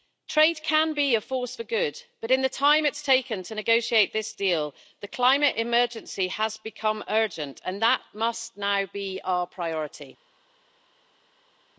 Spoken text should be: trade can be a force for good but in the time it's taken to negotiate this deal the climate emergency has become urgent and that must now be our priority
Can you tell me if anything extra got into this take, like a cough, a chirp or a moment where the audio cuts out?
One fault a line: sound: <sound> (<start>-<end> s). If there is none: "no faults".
no faults